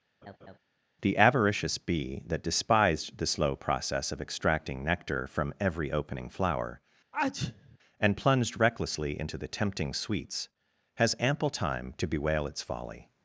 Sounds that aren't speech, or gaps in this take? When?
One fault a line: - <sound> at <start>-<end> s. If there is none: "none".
- laugh at 0.2-0.6 s
- sneeze at 7.1-7.8 s